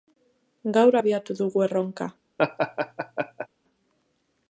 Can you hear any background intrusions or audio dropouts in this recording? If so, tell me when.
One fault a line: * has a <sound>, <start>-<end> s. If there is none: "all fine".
* has a laugh, 2.4-3.5 s